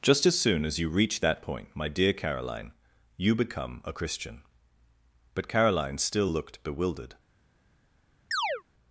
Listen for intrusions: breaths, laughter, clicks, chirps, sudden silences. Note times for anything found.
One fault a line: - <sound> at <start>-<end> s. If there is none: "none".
- chirp at 8.3-8.6 s